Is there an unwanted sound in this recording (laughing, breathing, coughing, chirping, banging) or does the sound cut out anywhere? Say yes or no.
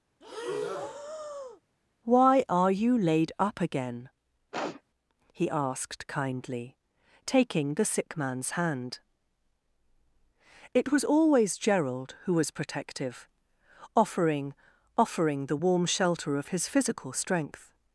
yes